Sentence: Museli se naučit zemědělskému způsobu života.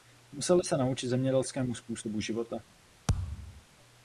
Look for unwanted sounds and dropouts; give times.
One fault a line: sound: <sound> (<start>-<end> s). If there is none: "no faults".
sound: thud (3.1-3.6 s)